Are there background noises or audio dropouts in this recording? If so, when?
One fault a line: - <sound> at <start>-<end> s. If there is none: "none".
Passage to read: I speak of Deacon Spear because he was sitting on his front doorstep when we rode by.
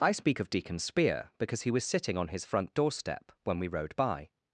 none